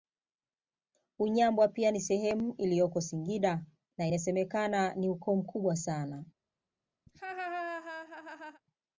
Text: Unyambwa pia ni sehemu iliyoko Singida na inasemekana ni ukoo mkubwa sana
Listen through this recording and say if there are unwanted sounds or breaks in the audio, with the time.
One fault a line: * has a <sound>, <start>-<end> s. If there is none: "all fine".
* has a laugh, 7.1-8.6 s